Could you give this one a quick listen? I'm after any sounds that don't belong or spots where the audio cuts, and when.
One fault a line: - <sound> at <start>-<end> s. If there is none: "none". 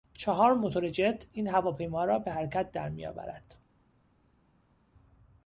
none